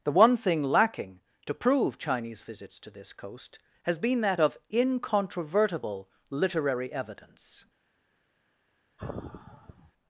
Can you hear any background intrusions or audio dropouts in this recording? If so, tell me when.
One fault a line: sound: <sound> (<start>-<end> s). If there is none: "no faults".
sound: sigh (9.0-9.9 s)